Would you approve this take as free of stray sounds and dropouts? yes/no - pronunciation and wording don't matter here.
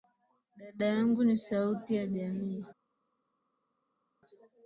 yes